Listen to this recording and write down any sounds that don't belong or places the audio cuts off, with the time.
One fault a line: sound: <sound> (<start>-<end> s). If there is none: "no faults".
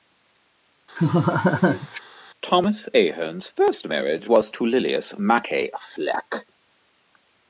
sound: laugh (1.0-2.0 s)